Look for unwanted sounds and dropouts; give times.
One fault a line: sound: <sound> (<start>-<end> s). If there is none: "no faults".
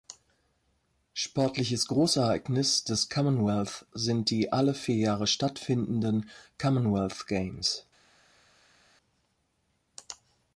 no faults